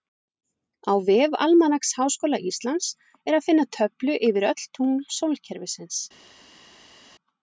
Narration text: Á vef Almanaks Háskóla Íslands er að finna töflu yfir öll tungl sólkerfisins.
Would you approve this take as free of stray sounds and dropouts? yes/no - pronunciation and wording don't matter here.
yes